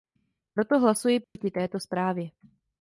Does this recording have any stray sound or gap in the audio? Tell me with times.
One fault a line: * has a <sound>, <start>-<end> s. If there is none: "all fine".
* has a dropout, 1.2-1.4 s